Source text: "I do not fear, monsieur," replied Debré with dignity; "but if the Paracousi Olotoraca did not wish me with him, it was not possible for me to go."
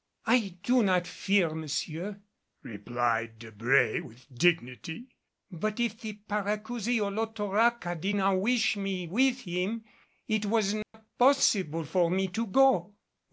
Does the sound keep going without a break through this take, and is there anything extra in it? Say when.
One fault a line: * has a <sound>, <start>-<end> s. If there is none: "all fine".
* has a dropout, 10.8-10.9 s